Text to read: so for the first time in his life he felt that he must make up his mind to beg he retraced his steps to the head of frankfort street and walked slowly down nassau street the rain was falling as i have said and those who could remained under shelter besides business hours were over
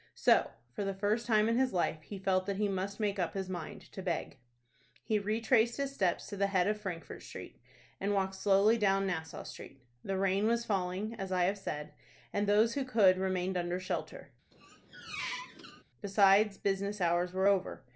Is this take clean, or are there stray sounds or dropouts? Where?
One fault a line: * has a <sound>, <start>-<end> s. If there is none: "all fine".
* has a squeak, 14.5-15.8 s